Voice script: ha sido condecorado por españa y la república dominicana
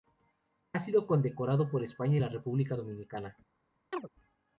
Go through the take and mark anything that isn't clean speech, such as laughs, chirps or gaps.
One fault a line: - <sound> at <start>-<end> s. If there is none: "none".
- chirp at 3.9-4.1 s